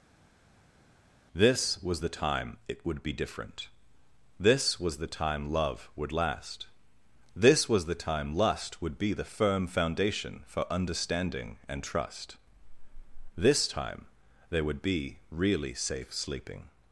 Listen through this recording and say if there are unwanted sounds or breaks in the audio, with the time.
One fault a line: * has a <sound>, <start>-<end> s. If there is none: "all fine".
all fine